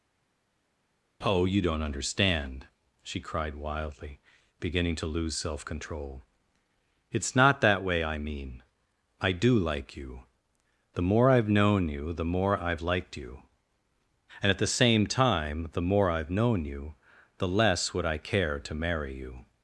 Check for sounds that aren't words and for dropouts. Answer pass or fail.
pass